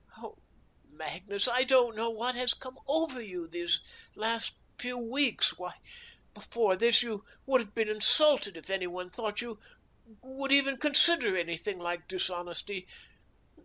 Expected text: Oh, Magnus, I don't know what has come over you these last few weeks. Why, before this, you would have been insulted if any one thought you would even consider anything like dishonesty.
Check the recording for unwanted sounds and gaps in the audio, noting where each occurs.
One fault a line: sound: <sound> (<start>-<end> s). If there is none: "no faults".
no faults